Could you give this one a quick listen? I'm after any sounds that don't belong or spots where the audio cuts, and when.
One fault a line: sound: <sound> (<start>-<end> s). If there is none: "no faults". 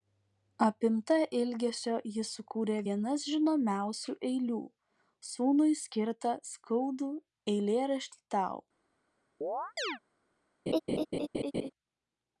sound: chirp (9.4-10.0 s)
sound: laugh (10.7-11.7 s)